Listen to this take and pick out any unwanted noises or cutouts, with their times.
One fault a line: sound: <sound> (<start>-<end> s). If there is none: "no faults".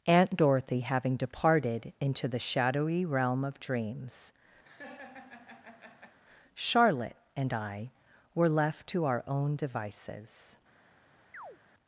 sound: laugh (4.6-6.2 s)
sound: chirp (11.3-11.6 s)